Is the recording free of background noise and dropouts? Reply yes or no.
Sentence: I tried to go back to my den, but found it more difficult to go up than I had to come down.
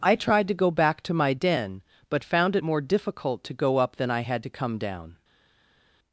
yes